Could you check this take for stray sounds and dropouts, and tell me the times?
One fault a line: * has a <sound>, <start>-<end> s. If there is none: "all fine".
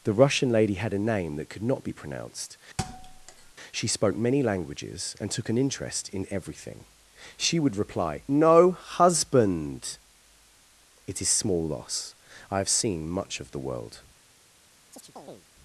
* has a thud, 2.8-3.5 s
* has a chirp, 14.9-15.5 s